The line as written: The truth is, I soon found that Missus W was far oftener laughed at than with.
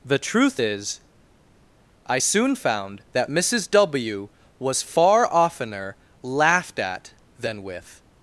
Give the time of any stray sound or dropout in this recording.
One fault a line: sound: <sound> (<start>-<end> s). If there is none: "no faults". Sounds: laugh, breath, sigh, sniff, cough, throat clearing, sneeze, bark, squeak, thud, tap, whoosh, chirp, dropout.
no faults